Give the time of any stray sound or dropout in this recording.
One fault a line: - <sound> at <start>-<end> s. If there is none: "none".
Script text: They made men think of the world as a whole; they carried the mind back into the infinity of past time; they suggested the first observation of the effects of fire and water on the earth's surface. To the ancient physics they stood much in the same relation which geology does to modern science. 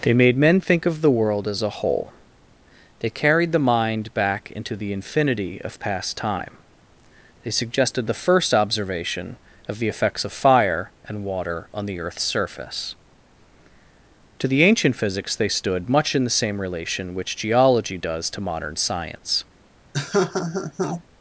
- laugh at 19.9-21.0 s